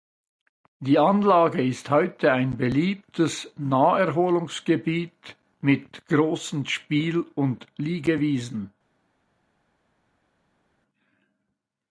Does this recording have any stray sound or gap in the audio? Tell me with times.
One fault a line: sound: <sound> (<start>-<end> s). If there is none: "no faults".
no faults